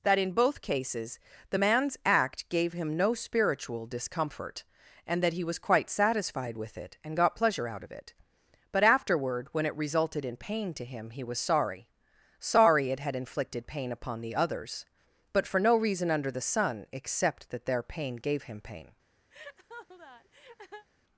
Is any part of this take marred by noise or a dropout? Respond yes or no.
yes